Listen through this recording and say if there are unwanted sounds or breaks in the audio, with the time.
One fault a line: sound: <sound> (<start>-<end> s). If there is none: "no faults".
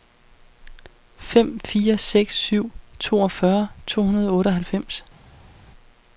no faults